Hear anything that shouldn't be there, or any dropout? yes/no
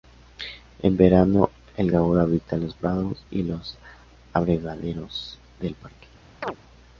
yes